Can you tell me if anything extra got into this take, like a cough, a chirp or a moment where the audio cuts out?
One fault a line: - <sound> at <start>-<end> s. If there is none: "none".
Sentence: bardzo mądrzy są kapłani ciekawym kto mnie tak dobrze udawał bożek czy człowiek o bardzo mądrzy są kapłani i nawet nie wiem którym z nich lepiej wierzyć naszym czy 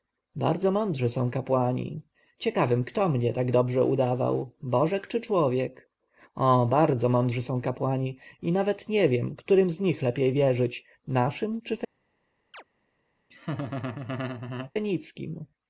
- chirp at 12.5-12.6 s
- laugh at 13.3-14.7 s